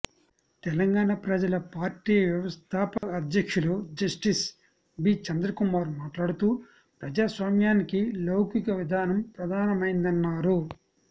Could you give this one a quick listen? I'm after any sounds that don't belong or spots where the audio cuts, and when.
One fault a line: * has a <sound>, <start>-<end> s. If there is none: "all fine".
* has a dropout, 3.0-3.0 s